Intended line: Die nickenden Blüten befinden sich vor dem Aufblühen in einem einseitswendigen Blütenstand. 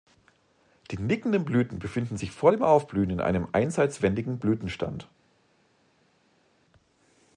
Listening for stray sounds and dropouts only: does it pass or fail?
pass